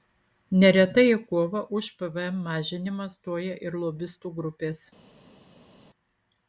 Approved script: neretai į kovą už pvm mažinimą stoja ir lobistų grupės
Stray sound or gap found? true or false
false